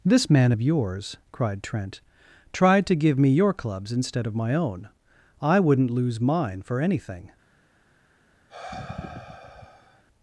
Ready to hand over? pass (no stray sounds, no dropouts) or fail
fail